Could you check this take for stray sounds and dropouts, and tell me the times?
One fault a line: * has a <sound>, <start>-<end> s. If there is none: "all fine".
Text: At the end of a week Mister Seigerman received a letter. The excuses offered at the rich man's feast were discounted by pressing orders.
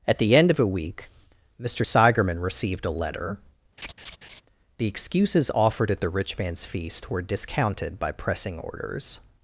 * has a laugh, 3.8-4.4 s